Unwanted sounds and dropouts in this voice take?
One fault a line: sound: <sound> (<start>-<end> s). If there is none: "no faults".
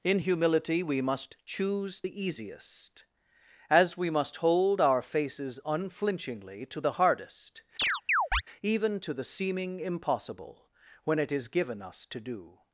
sound: chirp (7.8-8.4 s)